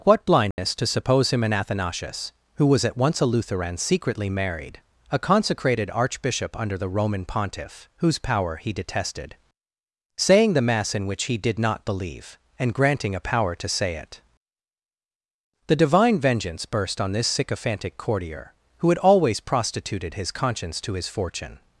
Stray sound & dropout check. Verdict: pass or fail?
fail